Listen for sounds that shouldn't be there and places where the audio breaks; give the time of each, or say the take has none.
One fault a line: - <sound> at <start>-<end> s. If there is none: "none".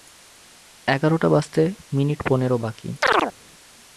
- chirp at 3.0-3.3 s